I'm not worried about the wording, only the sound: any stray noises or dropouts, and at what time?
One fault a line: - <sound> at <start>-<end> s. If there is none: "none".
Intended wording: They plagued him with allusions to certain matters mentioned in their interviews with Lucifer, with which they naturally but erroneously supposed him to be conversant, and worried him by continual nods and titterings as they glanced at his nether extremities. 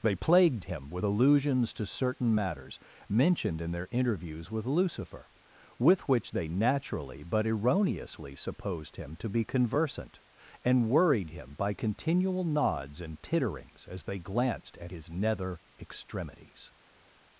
none